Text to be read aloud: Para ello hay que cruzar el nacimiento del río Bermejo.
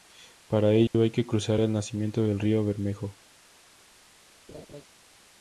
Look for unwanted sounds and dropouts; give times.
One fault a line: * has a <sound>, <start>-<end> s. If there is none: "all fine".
* has a dropout, 0.9-0.9 s
* has a laugh, 4.5-4.9 s